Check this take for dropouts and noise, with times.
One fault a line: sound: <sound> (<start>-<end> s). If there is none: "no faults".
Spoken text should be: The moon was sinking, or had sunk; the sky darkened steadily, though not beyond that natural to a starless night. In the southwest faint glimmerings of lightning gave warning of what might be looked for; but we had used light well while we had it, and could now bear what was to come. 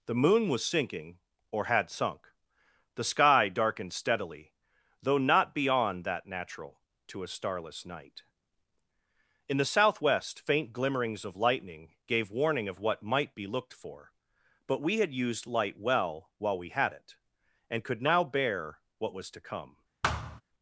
sound: thud (20.0-20.4 s)